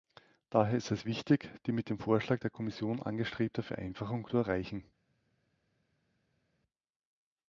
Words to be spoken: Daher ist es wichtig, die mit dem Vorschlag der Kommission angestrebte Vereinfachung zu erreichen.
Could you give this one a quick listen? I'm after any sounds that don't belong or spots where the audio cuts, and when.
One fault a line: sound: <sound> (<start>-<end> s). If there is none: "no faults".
no faults